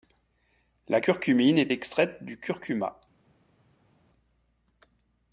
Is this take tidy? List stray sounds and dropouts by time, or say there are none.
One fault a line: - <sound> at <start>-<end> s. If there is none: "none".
none